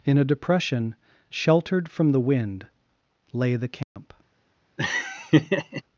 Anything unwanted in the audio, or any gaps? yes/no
yes